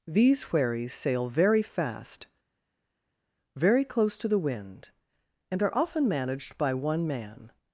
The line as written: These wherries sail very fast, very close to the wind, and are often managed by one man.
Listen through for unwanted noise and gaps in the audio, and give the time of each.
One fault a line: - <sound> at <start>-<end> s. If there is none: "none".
none